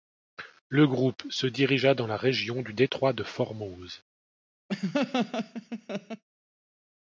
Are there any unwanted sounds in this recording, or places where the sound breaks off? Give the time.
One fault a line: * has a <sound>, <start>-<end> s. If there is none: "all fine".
* has a laugh, 4.7-6.2 s